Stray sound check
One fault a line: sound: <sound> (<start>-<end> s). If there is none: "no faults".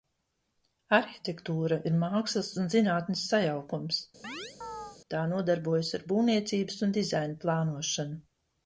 sound: chirp (4.2-5.0 s)